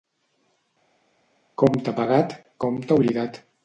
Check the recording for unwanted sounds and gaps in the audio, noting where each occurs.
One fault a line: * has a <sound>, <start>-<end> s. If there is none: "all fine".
all fine